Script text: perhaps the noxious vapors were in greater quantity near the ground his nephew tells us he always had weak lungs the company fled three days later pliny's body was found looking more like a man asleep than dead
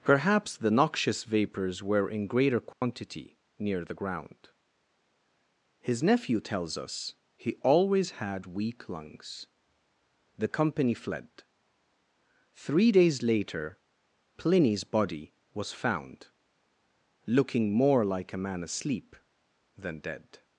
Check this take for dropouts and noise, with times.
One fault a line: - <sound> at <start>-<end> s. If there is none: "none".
- dropout at 2.7-2.8 s